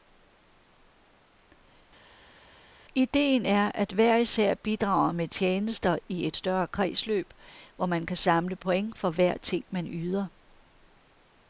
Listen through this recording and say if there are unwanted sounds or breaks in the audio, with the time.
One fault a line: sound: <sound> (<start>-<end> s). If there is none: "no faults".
no faults